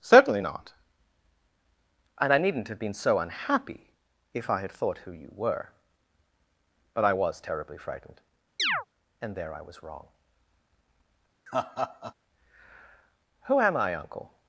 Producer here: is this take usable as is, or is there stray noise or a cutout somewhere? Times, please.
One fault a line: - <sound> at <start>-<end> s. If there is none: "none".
- chirp at 8.6-8.9 s
- laugh at 11.5-12.1 s